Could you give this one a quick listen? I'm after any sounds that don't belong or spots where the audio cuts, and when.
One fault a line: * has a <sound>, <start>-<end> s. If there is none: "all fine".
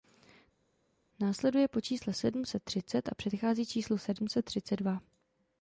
all fine